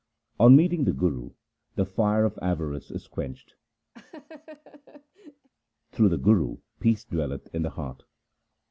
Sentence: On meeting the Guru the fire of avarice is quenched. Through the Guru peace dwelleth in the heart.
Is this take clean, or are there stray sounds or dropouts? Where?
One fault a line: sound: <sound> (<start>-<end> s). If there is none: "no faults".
sound: laugh (3.9-5.5 s)